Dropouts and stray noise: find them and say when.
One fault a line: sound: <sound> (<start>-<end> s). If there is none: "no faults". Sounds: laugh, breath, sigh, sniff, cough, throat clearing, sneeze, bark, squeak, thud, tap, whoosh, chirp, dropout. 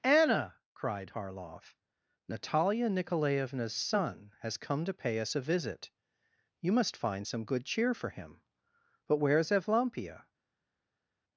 no faults